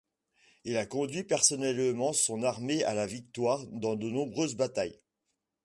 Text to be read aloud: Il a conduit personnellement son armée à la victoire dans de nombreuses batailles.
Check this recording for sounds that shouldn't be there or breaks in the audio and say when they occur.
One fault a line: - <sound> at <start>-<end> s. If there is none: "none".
none